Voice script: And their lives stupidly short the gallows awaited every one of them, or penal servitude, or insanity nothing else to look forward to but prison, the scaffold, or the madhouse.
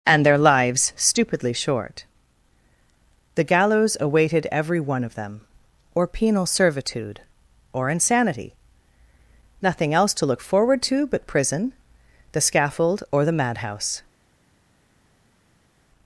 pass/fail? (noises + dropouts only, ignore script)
pass